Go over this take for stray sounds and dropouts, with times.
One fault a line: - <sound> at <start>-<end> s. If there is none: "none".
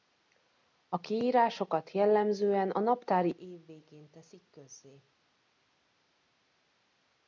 none